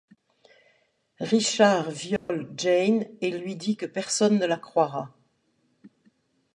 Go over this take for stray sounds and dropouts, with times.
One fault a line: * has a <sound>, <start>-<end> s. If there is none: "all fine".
* has a dropout, 2.2-2.3 s